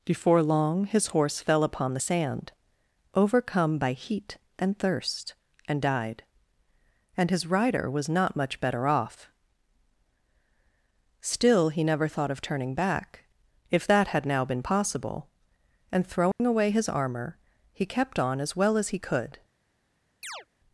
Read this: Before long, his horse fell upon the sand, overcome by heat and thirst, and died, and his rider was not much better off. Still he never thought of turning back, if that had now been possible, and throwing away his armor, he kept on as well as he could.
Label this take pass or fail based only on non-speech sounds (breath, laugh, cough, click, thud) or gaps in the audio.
fail